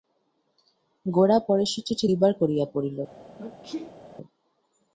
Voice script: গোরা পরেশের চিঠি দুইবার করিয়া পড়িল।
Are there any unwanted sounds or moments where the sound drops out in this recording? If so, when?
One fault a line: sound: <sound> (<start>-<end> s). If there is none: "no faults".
sound: sneeze (3.4-4.0 s)